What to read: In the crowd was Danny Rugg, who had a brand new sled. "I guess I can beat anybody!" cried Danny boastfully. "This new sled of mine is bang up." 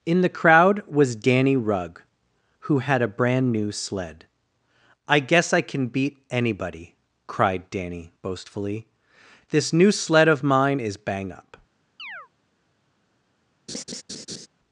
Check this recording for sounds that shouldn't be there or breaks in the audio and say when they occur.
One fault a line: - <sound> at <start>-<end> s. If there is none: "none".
- chirp at 12.0-12.3 s
- laugh at 13.7-14.5 s